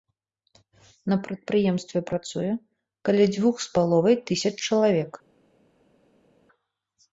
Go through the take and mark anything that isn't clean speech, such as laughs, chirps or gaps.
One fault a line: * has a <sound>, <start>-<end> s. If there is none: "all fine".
all fine